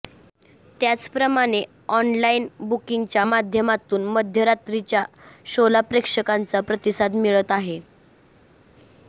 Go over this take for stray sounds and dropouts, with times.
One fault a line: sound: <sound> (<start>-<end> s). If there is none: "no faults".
no faults